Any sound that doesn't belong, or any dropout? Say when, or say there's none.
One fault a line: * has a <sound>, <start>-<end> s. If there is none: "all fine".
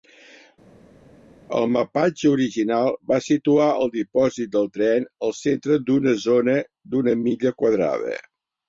all fine